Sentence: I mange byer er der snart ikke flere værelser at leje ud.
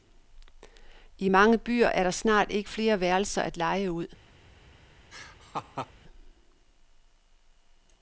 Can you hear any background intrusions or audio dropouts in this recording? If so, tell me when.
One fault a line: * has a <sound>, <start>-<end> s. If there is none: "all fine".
* has a laugh, 5.1-5.9 s